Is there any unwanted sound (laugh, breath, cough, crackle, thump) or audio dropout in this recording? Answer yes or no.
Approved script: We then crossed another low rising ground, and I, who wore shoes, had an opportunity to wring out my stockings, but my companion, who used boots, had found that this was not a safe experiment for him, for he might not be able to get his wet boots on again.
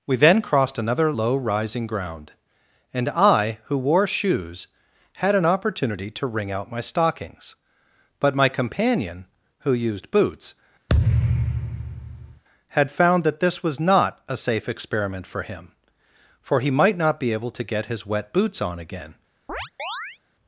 yes